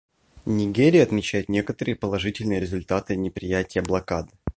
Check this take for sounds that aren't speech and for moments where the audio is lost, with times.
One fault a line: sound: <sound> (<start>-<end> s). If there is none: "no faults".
no faults